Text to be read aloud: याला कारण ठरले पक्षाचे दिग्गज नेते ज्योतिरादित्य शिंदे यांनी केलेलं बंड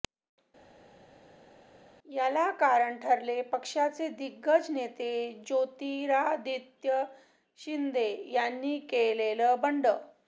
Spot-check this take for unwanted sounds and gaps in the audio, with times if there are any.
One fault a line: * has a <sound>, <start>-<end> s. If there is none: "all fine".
all fine